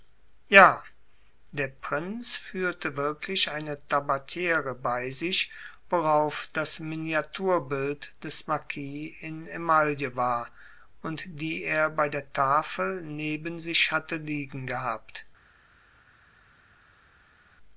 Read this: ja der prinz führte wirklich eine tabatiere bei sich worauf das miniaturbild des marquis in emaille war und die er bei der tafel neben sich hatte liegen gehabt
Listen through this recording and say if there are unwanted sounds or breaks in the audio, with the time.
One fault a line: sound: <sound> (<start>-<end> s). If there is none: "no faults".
no faults